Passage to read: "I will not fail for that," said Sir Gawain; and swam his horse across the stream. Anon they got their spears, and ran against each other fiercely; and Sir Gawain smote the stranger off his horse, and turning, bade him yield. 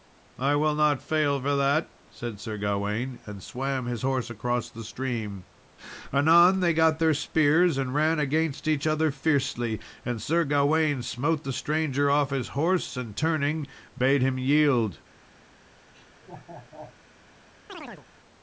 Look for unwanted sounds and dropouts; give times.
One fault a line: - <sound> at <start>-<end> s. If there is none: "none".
- laugh at 15.9-17.0 s
- chirp at 17.7-18.1 s